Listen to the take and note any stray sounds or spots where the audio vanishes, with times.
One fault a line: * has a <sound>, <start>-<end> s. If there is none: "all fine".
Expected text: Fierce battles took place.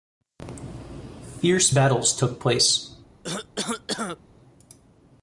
* has a cough, 3.2-4.2 s